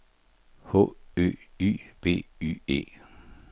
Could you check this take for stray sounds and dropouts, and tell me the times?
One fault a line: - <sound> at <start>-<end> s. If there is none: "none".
none